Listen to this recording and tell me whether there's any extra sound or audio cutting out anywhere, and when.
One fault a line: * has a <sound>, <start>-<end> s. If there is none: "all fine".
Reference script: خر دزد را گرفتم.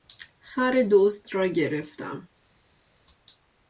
all fine